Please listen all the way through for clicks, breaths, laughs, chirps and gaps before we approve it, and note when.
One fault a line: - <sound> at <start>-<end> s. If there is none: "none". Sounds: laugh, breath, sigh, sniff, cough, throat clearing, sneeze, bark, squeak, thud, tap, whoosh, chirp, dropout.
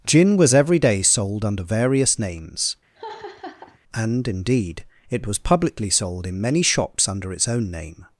- laugh at 3.0-3.8 s